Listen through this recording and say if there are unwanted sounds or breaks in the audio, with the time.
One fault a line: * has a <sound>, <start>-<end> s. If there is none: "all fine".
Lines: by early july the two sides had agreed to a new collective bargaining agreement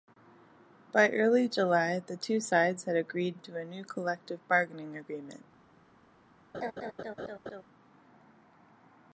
* has a laugh, 6.5-7.6 s